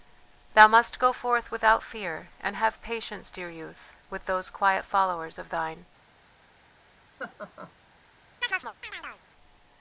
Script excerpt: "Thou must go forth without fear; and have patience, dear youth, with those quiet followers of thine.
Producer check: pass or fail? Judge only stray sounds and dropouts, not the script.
fail